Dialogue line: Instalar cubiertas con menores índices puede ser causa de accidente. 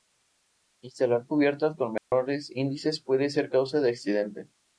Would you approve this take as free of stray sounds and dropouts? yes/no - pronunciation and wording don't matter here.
no